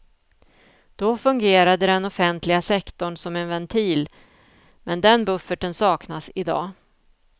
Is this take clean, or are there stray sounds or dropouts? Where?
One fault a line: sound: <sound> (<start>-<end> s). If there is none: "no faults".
no faults